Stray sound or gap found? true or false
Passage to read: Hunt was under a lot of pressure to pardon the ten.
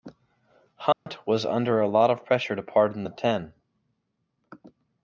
true